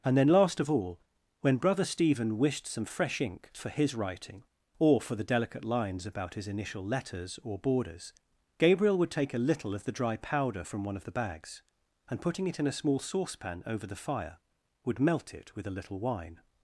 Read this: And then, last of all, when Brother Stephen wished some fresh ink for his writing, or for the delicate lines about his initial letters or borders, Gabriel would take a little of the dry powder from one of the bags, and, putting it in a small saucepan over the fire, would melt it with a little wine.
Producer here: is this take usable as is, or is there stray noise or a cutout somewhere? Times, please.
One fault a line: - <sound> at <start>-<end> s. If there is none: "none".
none